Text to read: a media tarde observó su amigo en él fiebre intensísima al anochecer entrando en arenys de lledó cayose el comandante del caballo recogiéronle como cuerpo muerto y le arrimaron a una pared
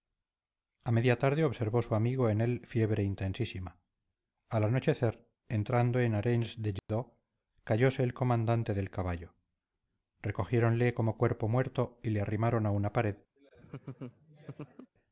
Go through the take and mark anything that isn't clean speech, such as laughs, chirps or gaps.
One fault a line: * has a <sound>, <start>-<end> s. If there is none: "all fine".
* has a dropout, 6.8-6.9 s
* has a laugh, 13.4-14.9 s